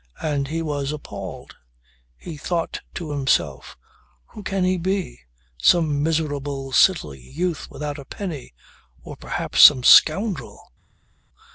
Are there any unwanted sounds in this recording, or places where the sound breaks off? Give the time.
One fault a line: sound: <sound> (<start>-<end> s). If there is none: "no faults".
no faults